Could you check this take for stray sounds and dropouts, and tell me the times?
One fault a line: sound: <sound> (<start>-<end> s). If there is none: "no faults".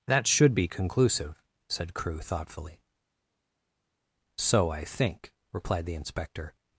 no faults